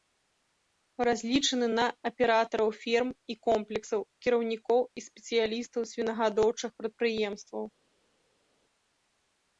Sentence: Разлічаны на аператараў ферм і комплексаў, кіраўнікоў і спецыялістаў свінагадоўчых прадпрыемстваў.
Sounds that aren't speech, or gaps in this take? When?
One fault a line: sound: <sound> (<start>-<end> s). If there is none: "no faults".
no faults